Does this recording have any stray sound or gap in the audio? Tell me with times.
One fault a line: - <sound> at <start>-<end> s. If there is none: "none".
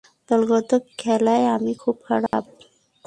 - dropout at 2.3-2.3 s